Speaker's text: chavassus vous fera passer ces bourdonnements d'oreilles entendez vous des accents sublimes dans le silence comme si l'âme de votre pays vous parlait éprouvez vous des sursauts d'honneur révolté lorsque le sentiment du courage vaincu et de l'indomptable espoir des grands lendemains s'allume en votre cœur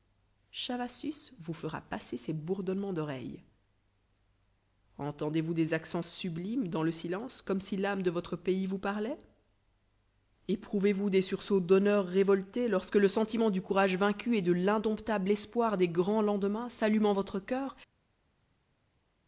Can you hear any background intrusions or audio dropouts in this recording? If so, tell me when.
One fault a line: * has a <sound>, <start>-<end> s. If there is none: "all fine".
all fine